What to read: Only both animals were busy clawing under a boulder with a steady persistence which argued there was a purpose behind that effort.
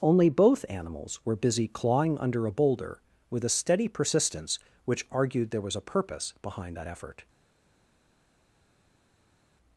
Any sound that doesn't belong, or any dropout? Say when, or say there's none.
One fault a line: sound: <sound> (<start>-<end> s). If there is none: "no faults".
no faults